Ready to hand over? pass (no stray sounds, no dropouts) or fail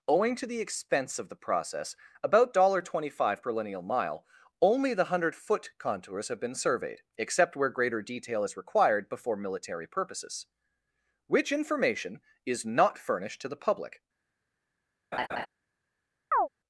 fail